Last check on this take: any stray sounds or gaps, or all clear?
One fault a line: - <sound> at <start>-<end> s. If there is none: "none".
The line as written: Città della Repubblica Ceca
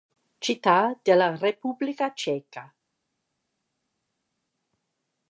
none